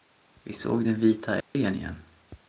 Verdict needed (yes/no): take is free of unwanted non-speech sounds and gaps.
no